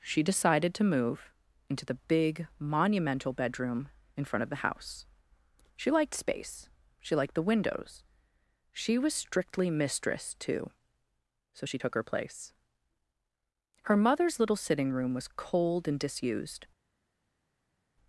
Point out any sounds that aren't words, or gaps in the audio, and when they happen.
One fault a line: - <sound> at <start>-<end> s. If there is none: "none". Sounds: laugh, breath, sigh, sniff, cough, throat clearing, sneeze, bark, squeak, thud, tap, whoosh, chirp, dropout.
none